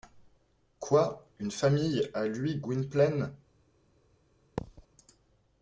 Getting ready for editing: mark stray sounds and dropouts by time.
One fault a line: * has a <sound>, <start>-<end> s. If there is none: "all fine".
* has a thud, 4.6-4.9 s